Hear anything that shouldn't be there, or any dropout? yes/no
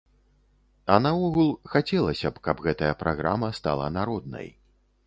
no